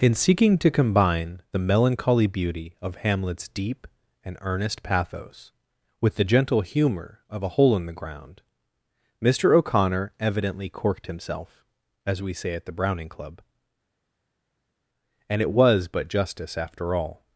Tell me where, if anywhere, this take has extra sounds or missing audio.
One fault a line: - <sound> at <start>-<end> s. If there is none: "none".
none